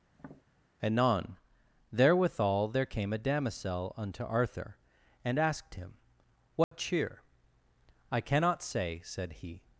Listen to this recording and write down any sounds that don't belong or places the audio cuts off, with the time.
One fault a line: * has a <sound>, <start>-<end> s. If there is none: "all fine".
* has a tap, 0.1-0.4 s
* has a dropout, 6.6-6.7 s